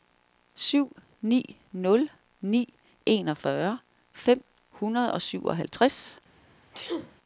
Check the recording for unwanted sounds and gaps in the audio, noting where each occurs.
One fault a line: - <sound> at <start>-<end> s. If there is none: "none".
- sneeze at 6.7-7.2 s